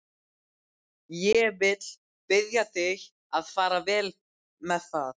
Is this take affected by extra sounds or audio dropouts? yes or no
no